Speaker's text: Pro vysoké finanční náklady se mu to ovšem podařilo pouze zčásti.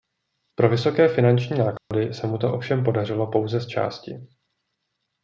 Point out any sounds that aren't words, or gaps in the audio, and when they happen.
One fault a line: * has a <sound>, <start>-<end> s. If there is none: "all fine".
* has a dropout, 1.8-1.9 s